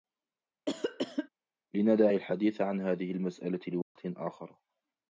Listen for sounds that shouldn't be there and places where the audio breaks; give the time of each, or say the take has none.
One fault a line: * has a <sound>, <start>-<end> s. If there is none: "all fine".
* has a cough, 0.7-1.3 s
* has a dropout, 3.8-4.0 s